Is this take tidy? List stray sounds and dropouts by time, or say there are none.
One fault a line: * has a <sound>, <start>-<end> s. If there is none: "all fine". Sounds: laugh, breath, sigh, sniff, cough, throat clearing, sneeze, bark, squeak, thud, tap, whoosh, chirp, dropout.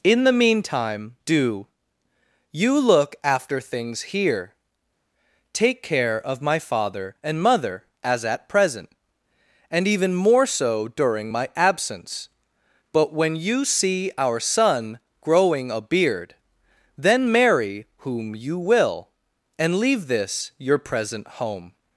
all fine